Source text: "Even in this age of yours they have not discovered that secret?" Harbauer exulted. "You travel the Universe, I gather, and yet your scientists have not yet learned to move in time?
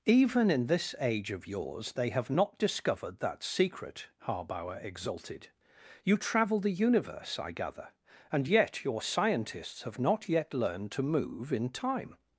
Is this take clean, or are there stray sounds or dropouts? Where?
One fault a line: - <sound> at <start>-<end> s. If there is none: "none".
none